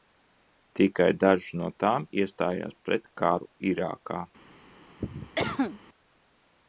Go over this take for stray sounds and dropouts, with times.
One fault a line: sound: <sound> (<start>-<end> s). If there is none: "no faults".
sound: cough (5.0-5.8 s)